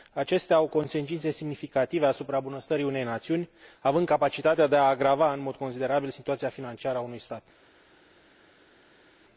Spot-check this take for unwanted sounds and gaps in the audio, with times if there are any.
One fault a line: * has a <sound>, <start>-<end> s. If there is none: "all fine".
all fine